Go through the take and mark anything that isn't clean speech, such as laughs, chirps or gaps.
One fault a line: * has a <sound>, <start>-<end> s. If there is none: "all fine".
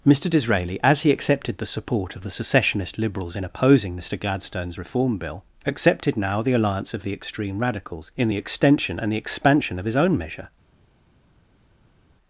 all fine